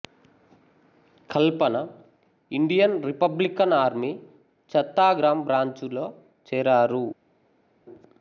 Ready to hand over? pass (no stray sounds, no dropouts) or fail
pass